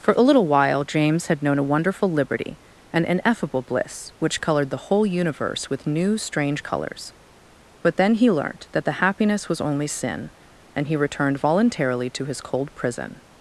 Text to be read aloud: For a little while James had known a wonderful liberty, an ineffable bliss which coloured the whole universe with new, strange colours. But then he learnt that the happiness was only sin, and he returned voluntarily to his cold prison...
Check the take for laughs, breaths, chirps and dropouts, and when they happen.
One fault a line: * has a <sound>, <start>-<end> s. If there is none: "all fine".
all fine